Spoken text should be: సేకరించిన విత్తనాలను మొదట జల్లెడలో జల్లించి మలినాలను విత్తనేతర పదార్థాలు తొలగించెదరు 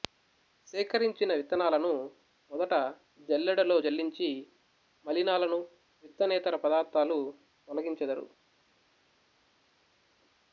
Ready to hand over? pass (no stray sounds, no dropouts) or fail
pass